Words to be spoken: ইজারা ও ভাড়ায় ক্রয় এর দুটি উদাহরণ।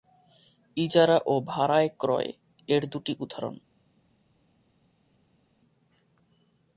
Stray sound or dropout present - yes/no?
no